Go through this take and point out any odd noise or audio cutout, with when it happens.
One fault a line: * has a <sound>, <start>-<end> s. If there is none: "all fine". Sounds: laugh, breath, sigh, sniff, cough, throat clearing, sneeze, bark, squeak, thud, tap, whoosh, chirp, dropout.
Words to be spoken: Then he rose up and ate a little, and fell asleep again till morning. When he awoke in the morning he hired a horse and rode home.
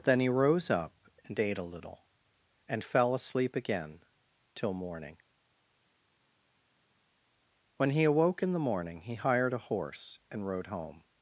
all fine